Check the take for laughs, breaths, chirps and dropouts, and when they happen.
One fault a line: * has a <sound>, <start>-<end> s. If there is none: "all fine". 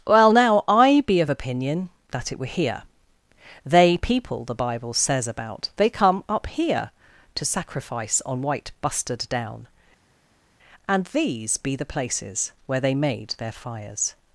all fine